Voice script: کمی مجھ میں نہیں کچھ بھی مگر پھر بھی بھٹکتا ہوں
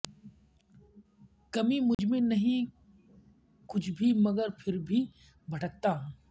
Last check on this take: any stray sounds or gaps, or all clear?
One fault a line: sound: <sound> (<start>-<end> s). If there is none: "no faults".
sound: dropout (1.9-2.0 s)